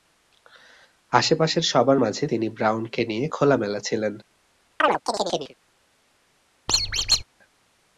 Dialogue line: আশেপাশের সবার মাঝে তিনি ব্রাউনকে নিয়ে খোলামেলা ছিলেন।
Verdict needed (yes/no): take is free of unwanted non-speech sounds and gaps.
no